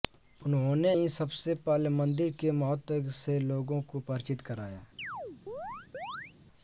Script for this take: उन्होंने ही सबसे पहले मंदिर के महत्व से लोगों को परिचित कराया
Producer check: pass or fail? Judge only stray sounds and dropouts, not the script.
fail